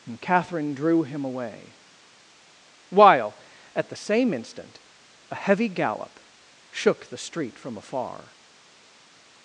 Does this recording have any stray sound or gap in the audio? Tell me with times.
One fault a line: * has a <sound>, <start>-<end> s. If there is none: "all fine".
all fine